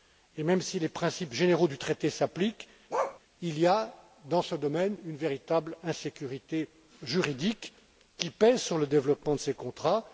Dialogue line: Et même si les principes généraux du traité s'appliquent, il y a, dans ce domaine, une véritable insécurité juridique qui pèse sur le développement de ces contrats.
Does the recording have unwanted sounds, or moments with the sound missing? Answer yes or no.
yes